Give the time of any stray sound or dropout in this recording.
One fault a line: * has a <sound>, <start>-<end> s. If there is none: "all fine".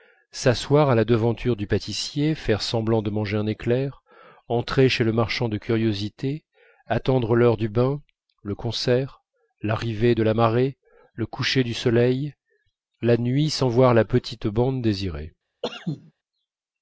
* has a cough, 15.6-16.1 s